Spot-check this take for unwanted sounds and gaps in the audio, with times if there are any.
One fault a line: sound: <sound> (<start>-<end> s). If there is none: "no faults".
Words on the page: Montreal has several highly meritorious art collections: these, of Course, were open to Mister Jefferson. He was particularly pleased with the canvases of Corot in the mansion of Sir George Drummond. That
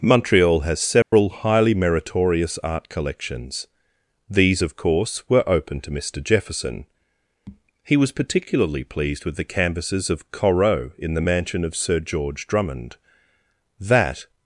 sound: dropout (1.0-1.1 s)